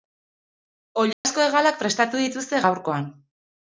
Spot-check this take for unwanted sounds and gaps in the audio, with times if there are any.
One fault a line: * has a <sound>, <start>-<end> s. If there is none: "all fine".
* has a dropout, 1.1-1.2 s